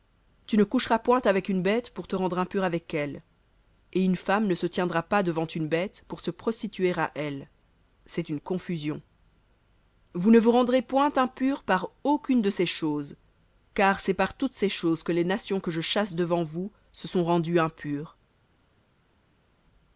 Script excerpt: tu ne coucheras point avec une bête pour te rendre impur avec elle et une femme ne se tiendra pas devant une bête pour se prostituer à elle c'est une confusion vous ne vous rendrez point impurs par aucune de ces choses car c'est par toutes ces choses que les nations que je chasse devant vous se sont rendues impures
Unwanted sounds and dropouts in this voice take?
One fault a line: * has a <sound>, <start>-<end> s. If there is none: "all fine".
all fine